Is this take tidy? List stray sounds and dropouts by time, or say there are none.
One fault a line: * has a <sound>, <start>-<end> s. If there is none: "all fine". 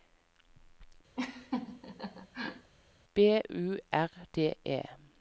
* has a laugh, 1.2-2.7 s